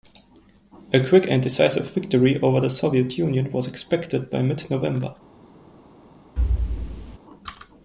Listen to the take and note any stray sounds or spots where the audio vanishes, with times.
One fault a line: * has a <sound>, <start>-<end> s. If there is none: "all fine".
* has a thud, 6.4-7.2 s